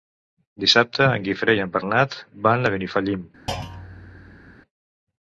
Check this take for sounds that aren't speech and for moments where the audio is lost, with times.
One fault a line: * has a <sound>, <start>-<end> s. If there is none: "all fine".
* has a thud, 3.5-4.6 s